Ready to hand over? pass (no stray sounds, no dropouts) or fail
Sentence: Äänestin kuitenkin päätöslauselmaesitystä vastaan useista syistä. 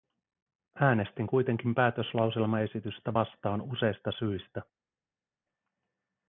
pass